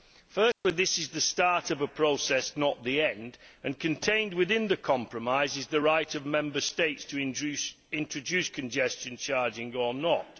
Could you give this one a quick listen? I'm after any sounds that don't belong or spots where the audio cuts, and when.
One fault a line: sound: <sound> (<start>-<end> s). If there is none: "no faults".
sound: dropout (0.5-0.6 s)